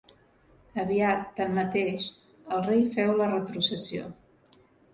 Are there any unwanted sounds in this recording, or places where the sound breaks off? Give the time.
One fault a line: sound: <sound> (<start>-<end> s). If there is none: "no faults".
no faults